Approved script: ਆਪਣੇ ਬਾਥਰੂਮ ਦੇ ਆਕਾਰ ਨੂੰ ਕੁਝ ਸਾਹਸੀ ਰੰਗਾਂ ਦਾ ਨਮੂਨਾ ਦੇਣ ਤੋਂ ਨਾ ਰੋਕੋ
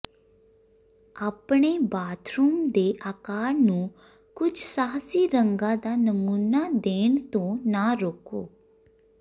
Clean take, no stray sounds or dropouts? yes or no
yes